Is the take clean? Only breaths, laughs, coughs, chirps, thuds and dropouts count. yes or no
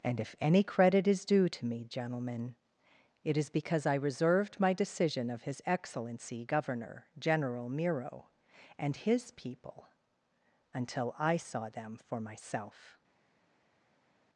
yes